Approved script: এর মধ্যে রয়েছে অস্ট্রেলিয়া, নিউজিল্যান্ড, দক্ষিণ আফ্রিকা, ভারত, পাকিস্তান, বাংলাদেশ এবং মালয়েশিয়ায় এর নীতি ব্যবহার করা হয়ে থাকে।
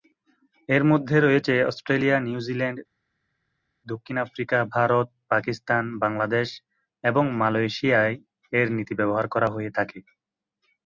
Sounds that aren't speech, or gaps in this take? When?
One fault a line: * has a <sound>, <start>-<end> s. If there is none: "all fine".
all fine